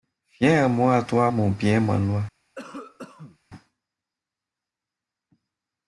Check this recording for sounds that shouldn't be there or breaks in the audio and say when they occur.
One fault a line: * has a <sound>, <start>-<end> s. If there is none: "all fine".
* has a cough, 2.5-3.4 s